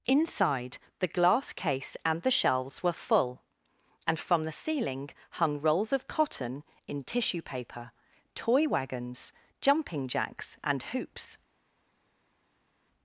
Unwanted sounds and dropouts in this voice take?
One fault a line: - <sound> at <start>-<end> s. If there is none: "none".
none